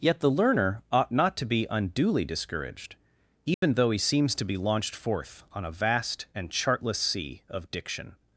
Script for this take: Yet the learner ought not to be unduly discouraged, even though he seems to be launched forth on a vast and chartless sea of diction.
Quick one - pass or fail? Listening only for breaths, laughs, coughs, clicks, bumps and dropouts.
fail